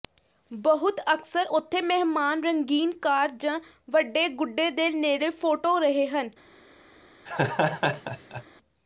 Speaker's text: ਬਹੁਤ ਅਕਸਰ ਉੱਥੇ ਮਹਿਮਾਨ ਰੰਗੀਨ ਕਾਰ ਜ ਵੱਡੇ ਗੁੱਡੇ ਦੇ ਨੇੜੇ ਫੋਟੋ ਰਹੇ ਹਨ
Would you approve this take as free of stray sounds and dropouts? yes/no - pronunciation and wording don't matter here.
no